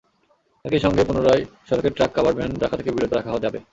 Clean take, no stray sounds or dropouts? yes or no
yes